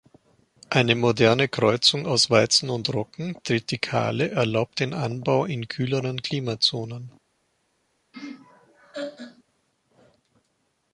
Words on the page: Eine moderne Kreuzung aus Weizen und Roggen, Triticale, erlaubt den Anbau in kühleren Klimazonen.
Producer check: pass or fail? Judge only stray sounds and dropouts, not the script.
fail